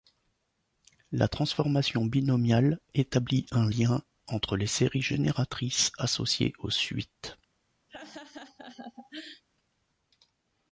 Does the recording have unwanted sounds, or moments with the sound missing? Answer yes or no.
yes